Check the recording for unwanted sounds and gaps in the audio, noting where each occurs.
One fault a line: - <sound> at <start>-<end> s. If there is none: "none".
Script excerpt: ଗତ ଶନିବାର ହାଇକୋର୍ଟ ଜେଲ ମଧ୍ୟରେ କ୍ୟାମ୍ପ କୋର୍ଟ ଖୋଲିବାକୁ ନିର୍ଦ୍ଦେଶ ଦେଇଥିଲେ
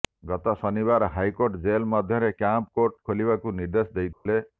- dropout at 4.1-4.3 s